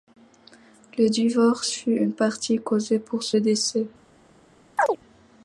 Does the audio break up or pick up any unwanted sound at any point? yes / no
yes